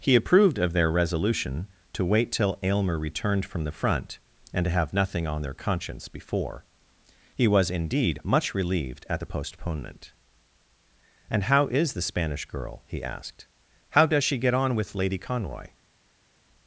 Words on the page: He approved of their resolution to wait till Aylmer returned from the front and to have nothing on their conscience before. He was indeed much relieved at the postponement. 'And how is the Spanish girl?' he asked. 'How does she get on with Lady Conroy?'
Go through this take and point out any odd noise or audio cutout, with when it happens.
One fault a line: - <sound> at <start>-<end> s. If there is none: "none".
none